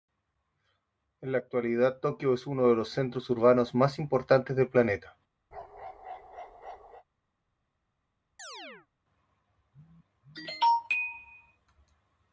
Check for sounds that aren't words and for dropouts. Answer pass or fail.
fail